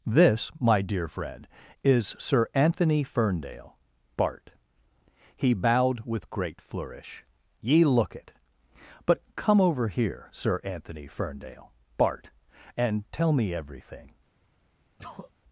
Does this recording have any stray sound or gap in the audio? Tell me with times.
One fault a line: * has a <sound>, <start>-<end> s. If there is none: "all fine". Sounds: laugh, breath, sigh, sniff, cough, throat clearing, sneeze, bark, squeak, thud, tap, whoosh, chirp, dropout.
* has a sneeze, 15.0-15.3 s